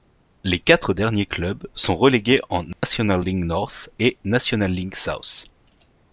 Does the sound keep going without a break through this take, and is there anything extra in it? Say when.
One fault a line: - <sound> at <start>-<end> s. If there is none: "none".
- dropout at 2.7-2.8 s